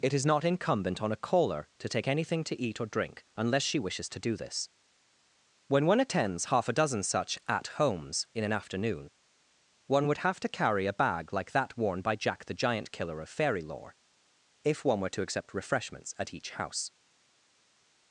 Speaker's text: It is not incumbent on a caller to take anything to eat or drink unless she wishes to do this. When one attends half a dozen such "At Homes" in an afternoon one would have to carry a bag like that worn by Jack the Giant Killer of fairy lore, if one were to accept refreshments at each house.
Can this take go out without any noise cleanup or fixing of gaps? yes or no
yes